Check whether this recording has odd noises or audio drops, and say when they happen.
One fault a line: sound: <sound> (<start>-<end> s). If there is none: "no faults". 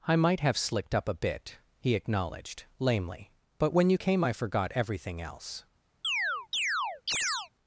sound: chirp (6.0-7.5 s)